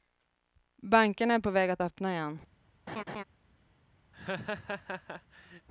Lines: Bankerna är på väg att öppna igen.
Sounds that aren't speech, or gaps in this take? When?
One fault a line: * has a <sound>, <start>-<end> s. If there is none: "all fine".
* has a laugh, 2.9-3.2 s
* has a laugh, 4.1-5.7 s